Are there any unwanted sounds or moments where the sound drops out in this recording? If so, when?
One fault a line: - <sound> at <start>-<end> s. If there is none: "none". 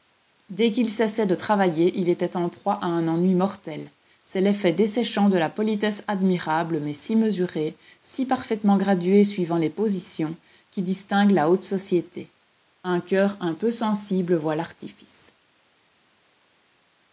none